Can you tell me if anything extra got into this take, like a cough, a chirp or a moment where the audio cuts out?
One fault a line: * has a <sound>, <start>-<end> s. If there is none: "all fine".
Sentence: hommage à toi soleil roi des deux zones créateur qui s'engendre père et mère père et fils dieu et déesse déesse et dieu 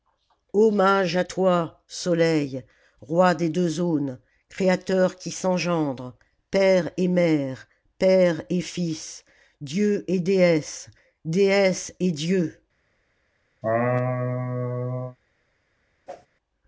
* has a laugh, 13.6-15.2 s
* has a whoosh, 16.1-16.3 s